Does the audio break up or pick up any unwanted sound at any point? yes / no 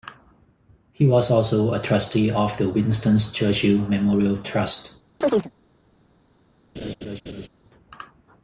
yes